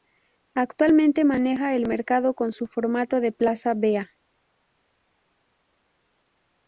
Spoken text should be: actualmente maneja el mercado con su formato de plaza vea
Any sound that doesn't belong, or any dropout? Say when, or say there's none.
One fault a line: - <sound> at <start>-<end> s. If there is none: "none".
none